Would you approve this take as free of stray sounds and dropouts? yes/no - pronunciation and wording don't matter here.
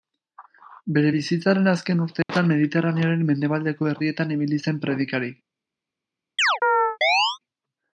no